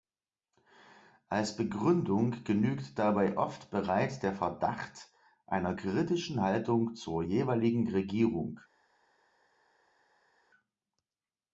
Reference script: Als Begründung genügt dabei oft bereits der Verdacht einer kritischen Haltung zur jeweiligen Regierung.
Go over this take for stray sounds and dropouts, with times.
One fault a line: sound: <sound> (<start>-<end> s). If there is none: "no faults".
no faults